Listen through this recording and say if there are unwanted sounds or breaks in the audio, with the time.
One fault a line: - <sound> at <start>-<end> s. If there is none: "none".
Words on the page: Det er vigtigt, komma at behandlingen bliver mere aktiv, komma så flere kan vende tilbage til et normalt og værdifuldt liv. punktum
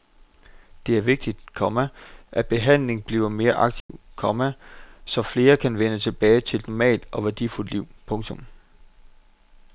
- dropout at 3.8-3.9 s